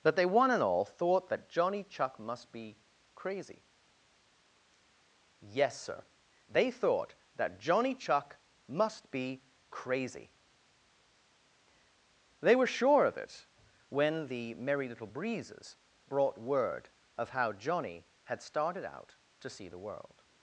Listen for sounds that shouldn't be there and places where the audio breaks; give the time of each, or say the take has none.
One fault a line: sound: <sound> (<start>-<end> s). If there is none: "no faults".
no faults